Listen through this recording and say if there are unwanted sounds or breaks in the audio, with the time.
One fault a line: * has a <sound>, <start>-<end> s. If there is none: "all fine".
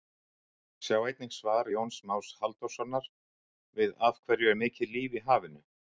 all fine